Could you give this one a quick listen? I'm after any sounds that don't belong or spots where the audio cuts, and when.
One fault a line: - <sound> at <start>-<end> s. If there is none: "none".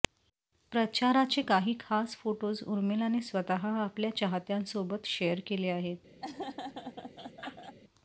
- laugh at 6.2-7.8 s